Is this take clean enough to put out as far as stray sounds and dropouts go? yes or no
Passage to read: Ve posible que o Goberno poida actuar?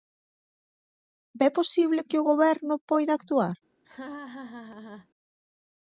no